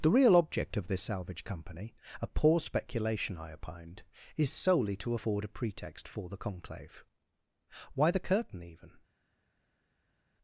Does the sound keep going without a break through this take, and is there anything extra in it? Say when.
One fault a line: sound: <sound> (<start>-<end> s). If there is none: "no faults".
no faults